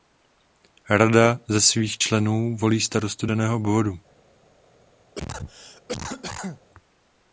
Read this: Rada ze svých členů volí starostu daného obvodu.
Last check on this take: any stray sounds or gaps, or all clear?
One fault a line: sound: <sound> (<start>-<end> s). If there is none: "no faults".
sound: cough (5.2-6.6 s)